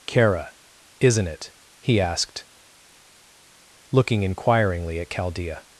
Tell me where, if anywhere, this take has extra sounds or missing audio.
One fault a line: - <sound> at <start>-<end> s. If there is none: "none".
none